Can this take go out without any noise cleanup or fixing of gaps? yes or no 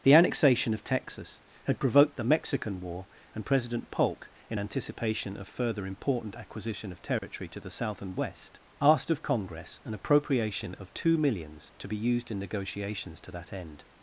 no